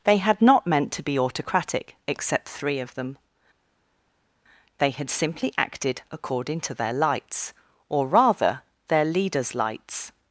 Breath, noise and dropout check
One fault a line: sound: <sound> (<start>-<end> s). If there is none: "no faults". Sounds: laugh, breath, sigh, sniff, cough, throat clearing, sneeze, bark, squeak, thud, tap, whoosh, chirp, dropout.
no faults